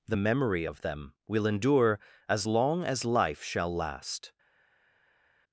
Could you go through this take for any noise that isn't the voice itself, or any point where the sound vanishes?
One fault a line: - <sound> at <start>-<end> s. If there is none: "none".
none